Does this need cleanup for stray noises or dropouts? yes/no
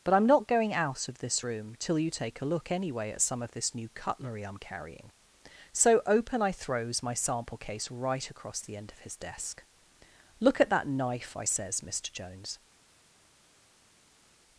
no